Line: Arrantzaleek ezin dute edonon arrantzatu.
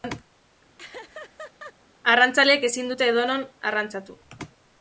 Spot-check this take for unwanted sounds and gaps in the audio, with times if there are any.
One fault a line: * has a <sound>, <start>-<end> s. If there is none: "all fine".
* has a laugh, 0.8-1.7 s